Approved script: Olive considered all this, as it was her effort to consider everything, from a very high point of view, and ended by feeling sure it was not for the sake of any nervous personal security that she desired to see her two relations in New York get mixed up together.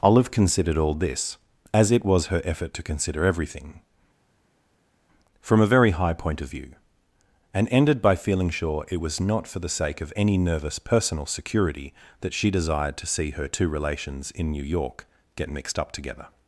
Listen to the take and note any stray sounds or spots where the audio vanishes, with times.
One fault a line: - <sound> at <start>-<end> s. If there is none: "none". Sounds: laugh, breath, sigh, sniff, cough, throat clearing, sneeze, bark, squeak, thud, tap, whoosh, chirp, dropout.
none